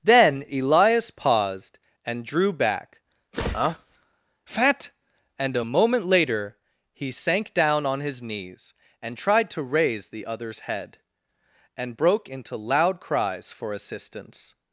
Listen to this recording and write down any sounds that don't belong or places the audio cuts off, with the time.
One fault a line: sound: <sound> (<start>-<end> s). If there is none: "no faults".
no faults